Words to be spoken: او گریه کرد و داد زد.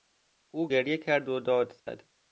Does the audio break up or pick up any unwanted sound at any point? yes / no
yes